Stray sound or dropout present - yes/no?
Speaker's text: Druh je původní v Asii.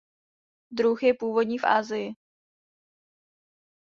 no